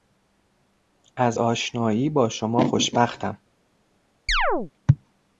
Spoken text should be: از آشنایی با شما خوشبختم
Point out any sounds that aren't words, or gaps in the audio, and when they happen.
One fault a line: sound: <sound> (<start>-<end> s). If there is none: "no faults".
sound: chirp (4.3-4.7 s)